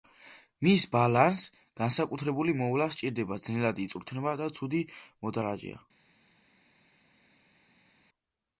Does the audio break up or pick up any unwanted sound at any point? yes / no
no